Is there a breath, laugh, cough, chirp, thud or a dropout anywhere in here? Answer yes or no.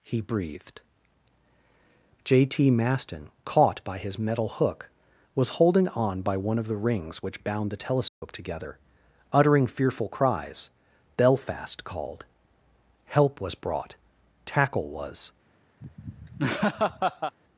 yes